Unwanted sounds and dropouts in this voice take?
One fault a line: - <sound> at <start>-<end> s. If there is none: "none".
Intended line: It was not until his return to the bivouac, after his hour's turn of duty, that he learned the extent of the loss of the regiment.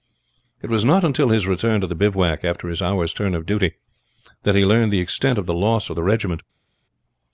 none